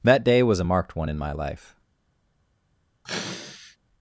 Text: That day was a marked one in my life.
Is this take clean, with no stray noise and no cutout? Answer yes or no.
no